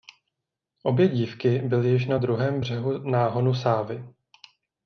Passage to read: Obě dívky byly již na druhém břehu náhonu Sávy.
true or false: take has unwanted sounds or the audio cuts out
false